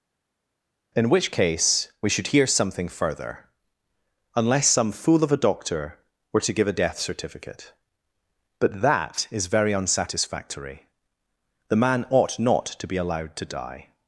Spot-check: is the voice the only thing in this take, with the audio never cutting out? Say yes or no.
yes